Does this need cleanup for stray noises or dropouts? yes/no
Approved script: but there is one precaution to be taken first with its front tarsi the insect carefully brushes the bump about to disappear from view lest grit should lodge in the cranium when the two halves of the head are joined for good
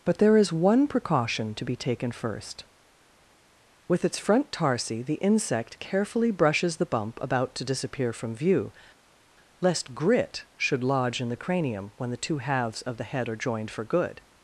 no